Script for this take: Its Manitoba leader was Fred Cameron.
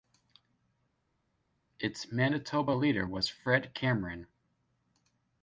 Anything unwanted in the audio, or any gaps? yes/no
no